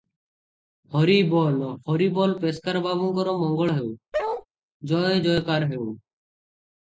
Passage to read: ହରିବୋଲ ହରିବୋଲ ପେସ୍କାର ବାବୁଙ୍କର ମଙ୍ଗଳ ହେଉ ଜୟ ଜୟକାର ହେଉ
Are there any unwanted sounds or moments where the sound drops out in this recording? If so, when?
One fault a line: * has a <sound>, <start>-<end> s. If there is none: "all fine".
* has a bark, 4.1-4.5 s